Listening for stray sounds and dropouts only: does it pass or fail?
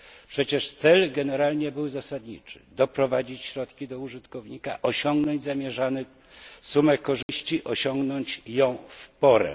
fail